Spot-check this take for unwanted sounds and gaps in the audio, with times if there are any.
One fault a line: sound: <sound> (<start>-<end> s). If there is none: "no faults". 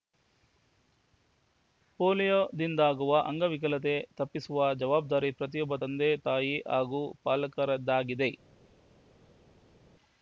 no faults